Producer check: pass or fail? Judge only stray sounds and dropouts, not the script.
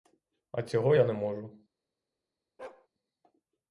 fail